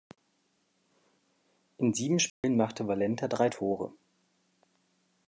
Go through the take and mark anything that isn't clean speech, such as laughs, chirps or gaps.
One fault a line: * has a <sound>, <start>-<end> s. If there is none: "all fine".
* has a dropout, 2.3-2.4 s